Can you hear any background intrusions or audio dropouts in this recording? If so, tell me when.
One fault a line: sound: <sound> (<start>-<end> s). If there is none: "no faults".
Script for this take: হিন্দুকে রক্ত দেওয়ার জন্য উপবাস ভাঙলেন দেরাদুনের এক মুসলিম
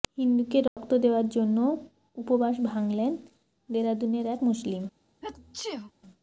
sound: dropout (0.7-0.8 s)
sound: sneeze (5.2-5.9 s)